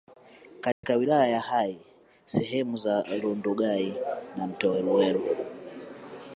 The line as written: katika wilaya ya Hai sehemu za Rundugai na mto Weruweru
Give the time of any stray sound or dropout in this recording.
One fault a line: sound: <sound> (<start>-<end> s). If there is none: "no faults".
sound: dropout (0.7-0.8 s)